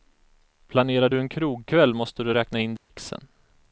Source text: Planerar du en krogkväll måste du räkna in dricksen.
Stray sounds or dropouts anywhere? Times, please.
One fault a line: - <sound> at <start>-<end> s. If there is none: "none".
- dropout at 2.8-2.9 s